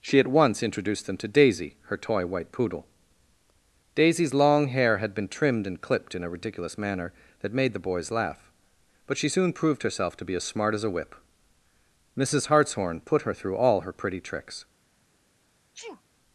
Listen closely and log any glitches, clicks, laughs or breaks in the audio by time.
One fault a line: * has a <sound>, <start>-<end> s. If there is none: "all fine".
* has a sneeze, 15.7-16.0 s